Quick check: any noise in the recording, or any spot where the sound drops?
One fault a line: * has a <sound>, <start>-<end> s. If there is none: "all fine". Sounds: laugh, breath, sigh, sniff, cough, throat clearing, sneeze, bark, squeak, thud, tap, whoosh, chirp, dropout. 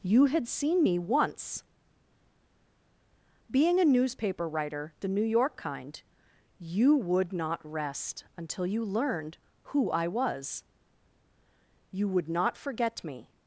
all fine